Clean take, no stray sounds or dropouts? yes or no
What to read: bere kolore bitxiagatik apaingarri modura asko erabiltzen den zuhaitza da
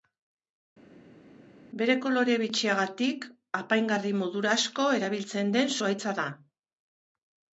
yes